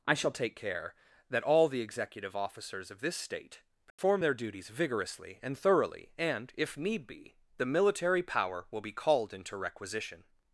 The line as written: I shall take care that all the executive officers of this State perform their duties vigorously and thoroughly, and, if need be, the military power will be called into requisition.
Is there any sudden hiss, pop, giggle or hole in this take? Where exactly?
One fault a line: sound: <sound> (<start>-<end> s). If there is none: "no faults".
sound: dropout (3.9-4.0 s)